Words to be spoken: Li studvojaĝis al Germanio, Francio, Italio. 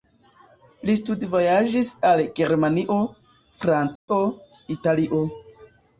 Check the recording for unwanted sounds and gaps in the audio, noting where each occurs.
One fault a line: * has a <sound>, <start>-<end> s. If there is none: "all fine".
* has a dropout, 4.0-4.1 s